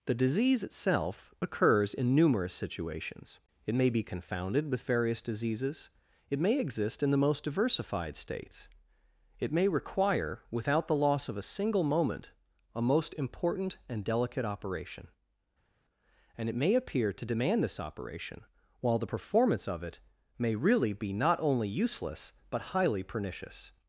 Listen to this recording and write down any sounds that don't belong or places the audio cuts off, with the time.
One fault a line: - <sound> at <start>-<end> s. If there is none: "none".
none